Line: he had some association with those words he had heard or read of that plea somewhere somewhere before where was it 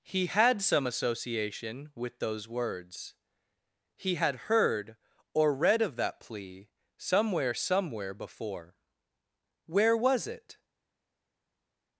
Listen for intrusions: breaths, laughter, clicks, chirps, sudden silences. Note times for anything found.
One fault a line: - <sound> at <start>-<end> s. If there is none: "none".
none